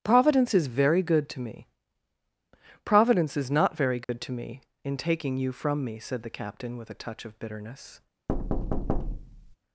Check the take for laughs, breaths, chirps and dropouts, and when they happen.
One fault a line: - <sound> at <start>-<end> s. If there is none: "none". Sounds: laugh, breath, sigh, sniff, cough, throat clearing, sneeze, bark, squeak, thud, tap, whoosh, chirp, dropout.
- dropout at 4.0-4.1 s
- thud at 8.3-9.6 s